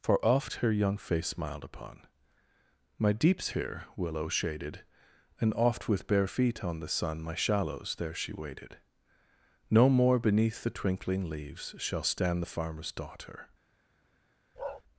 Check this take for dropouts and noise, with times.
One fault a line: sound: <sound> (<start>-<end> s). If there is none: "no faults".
sound: bark (14.6-14.8 s)